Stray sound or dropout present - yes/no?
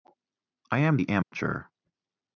yes